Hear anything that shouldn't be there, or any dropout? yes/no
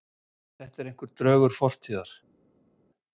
no